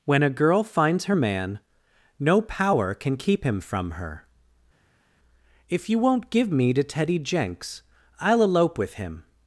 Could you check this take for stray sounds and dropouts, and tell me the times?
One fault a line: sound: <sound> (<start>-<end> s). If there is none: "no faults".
no faults